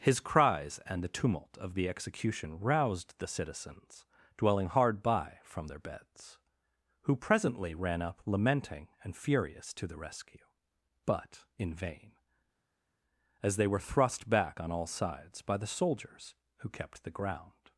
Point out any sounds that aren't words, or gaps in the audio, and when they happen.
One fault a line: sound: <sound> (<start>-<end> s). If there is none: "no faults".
no faults